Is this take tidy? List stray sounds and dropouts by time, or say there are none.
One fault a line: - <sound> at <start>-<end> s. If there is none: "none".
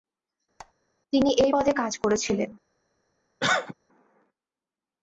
- squeak at 0.6-0.7 s
- cough at 3.4-3.7 s